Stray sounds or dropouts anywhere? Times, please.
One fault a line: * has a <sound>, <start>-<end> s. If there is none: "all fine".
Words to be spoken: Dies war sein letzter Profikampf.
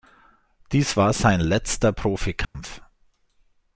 * has a dropout, 2.4-2.5 s